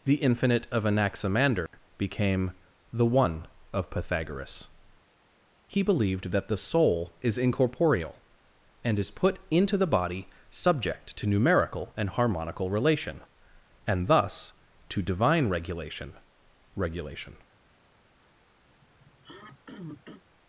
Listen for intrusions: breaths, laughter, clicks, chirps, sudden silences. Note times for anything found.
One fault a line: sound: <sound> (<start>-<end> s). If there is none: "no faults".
sound: dropout (1.7-1.7 s)
sound: throat clearing (18.7-20.2 s)